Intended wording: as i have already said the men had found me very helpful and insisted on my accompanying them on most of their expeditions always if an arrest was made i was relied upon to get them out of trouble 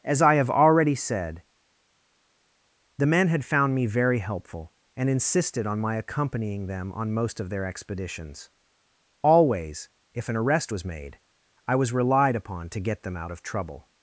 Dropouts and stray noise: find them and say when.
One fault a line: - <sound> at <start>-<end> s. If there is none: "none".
none